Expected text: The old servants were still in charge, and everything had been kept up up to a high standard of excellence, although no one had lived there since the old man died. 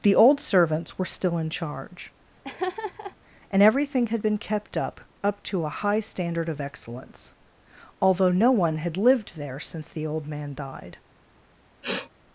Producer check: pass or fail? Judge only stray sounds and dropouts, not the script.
fail